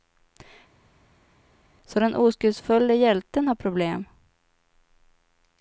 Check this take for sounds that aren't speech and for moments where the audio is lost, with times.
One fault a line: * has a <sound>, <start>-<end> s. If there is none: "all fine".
all fine